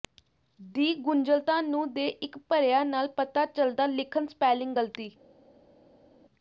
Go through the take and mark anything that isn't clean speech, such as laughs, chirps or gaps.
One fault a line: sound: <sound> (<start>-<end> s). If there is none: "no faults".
no faults